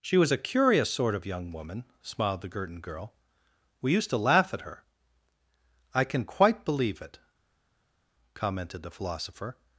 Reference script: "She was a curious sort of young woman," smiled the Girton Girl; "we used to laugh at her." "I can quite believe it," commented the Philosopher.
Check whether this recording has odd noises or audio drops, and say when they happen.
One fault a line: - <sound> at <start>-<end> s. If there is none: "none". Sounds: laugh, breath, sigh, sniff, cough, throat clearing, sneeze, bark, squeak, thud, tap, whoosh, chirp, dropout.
none